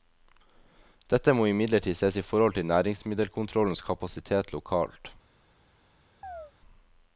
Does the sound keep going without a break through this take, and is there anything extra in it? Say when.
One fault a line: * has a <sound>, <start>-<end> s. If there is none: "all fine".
* has a chirp, 6.2-6.5 s